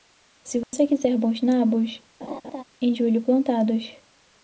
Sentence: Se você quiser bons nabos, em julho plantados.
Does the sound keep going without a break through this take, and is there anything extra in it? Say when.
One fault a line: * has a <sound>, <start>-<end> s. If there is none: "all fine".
* has a dropout, 0.6-0.7 s
* has a laugh, 2.2-2.6 s